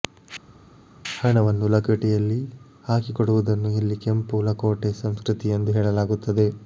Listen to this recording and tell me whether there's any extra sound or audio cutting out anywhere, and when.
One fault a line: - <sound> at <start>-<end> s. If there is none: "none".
none